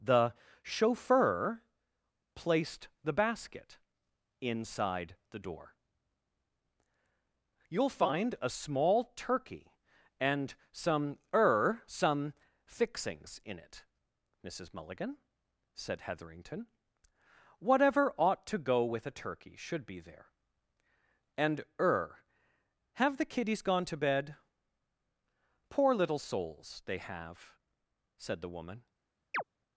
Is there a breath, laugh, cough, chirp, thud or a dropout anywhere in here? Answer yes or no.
yes